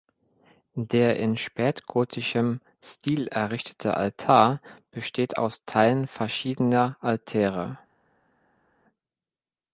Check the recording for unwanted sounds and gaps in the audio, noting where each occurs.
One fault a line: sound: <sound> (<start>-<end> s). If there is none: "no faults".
no faults